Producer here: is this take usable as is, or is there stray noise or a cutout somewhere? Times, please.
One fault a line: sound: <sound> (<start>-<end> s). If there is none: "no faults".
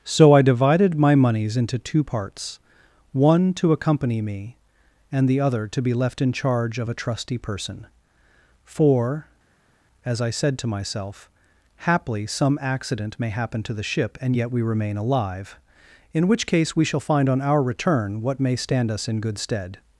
no faults